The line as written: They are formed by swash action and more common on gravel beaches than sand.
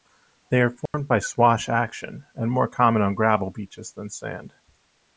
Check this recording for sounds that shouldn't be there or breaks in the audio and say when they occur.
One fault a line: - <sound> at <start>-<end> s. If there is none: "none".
- dropout at 0.9-0.9 s